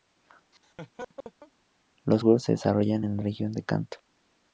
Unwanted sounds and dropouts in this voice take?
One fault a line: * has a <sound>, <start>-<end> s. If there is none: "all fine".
* has a laugh, 0.5-1.5 s